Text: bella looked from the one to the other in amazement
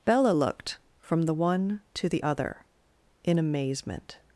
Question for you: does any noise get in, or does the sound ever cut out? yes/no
no